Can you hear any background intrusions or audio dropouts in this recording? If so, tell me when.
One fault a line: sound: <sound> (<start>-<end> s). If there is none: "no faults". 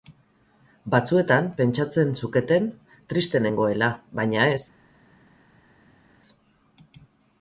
no faults